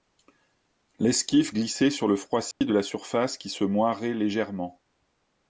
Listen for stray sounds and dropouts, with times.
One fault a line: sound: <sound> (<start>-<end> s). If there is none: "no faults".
sound: dropout (2.5-2.6 s)